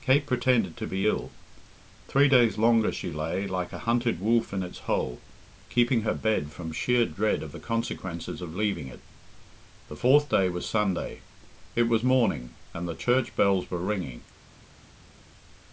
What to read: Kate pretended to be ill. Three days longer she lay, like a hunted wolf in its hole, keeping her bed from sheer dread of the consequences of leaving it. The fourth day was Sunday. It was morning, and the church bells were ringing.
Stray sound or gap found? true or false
false